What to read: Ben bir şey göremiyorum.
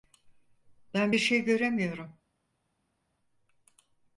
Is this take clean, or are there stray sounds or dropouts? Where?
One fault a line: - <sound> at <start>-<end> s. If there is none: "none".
none